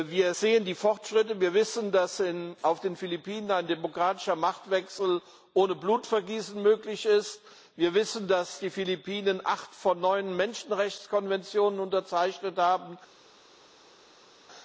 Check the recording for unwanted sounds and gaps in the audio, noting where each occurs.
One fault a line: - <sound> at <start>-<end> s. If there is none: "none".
none